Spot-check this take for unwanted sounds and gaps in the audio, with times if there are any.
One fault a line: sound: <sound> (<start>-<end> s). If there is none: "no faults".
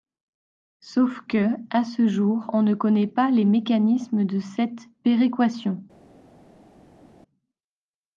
no faults